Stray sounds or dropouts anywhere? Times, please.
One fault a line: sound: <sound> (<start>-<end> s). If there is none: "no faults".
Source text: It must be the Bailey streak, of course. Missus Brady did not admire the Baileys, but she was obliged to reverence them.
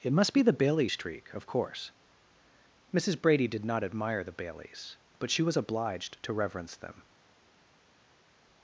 no faults